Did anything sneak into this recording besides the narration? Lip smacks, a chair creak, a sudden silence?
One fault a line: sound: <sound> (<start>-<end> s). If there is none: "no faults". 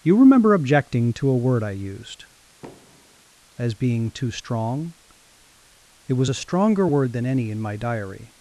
sound: thud (2.6-3.2 s)